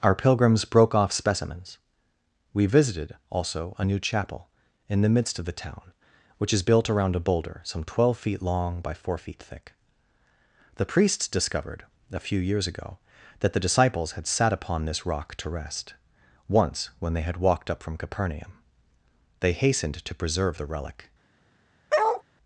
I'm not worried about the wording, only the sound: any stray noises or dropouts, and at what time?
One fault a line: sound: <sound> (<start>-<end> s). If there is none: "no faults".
sound: bark (21.9-22.2 s)